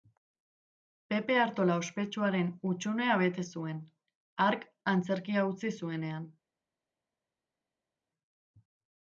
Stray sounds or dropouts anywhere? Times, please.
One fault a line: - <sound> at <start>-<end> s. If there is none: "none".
none